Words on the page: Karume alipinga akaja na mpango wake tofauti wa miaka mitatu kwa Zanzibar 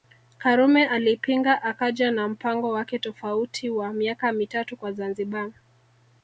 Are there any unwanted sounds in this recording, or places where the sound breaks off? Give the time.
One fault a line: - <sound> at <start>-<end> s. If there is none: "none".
none